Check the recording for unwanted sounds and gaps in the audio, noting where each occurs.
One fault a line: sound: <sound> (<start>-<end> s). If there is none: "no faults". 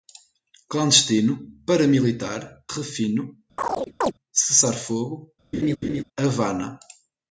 sound: chirp (3.6-4.1 s)
sound: laugh (5.5-6.0 s)